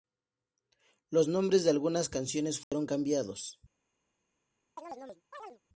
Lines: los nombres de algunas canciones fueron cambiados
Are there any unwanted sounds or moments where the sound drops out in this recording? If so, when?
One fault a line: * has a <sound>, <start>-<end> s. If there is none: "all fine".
* has a dropout, 2.6-2.7 s
* has a chirp, 4.8-5.6 s